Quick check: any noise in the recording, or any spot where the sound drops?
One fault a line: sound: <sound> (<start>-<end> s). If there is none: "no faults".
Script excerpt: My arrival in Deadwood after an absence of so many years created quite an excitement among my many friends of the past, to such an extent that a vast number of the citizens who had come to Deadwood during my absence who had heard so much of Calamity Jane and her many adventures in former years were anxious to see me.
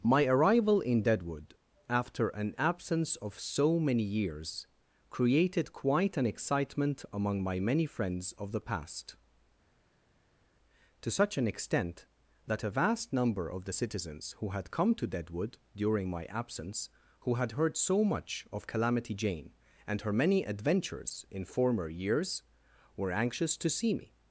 no faults